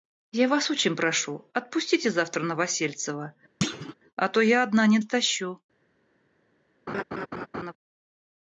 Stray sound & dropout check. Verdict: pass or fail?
fail